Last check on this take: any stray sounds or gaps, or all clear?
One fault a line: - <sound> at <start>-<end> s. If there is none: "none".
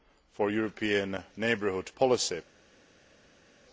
none